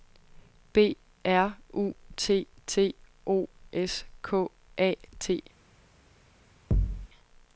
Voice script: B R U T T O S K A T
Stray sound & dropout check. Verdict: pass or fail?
fail